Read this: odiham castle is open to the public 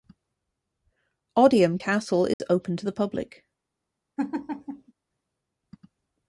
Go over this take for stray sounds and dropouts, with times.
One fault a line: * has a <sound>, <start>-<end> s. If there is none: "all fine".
* has a dropout, 2.3-2.4 s
* has a laugh, 4.2-4.9 s